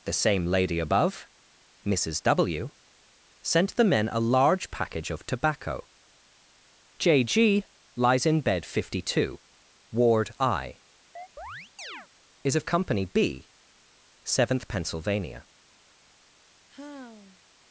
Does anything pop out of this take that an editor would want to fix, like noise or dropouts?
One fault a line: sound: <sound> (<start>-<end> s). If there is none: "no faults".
sound: chirp (11.2-12.1 s)
sound: sigh (16.7-17.4 s)